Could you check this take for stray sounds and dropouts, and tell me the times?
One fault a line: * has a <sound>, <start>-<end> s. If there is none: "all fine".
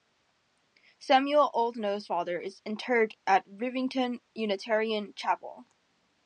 all fine